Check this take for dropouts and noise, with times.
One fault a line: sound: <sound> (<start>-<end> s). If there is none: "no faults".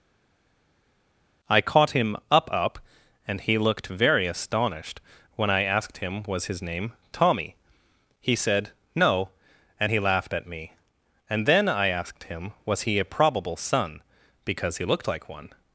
no faults